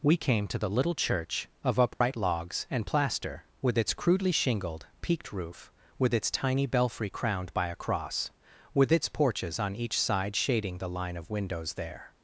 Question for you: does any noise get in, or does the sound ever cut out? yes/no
yes